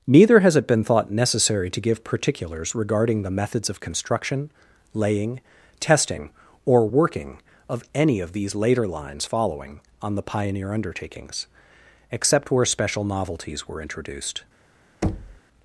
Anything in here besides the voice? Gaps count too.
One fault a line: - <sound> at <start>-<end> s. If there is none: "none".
- thud at 15.0-15.4 s